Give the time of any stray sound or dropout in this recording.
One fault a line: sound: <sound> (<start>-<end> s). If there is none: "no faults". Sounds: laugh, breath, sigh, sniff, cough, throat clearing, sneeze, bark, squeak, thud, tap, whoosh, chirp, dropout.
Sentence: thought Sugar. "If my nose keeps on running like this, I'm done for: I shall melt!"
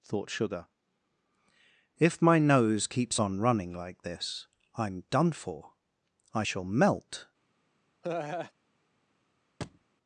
sound: laugh (8.0-8.5 s)
sound: thud (9.6-9.9 s)